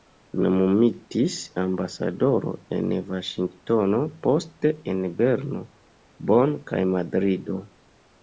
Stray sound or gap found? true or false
false